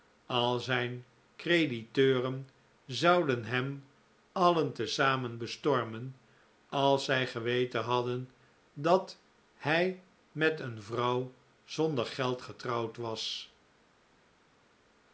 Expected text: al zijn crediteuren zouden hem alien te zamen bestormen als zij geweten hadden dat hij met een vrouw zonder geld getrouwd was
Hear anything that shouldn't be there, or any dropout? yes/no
no